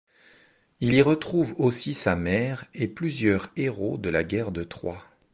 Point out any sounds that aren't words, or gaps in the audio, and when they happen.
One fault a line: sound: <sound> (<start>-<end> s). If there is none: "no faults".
no faults